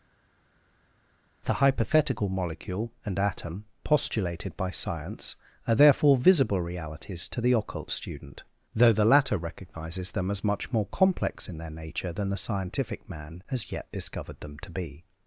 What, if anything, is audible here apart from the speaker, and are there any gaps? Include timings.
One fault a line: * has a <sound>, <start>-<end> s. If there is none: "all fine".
all fine